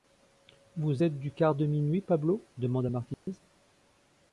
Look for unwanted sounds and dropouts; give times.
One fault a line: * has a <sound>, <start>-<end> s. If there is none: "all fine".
* has a dropout, 3.1-3.3 s